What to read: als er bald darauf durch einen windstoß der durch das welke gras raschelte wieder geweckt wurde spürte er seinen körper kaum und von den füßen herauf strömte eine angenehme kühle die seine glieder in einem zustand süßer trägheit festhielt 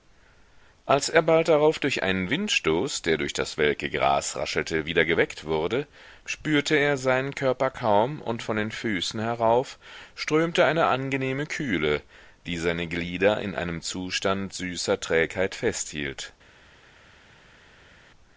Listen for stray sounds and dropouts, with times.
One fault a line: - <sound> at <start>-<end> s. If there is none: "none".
none